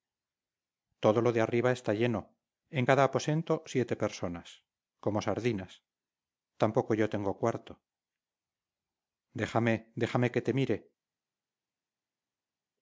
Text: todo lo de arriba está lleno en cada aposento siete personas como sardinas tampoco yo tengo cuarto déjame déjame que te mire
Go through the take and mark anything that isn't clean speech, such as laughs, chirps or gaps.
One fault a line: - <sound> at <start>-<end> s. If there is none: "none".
none